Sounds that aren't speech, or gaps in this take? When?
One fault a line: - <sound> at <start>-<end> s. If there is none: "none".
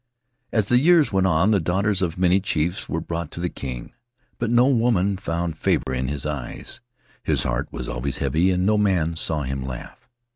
- dropout at 5.8-5.9 s